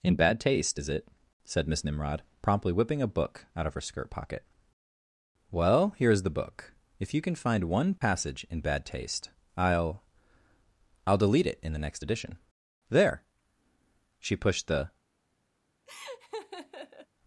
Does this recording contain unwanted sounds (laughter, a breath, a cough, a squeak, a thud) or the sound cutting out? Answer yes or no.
yes